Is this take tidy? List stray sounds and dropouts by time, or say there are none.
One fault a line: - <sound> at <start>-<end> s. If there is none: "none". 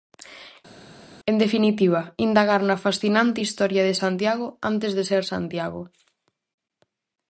none